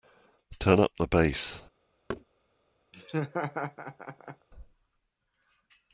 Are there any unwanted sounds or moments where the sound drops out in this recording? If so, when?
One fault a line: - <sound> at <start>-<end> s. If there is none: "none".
- thud at 2.1-2.2 s
- laugh at 2.9-4.5 s